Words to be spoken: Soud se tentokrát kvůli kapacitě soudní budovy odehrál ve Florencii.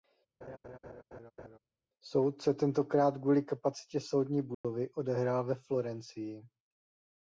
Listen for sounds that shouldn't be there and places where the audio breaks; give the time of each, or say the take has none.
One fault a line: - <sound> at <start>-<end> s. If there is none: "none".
- laugh at 0.4-1.6 s
- dropout at 4.5-4.6 s